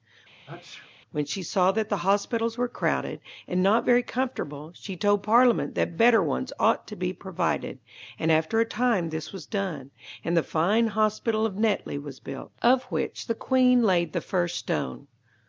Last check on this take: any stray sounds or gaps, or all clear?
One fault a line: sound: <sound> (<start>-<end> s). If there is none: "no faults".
sound: sneeze (0.5-0.9 s)